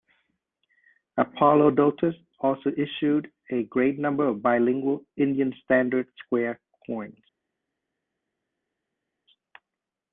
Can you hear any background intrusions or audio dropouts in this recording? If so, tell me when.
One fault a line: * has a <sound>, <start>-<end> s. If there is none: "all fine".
all fine